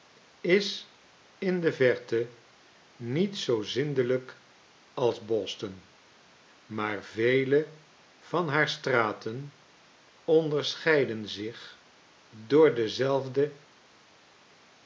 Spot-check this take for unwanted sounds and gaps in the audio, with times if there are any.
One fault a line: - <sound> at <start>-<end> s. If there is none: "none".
none